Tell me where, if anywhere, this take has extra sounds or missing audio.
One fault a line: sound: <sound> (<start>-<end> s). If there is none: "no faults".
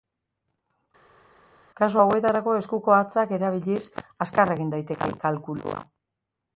no faults